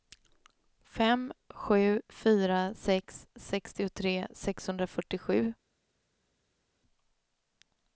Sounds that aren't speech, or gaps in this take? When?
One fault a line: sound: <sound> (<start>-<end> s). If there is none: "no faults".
no faults